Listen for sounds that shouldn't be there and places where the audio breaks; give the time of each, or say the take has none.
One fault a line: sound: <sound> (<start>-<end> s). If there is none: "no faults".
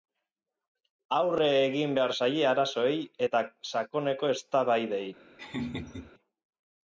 sound: laugh (5.4-6.1 s)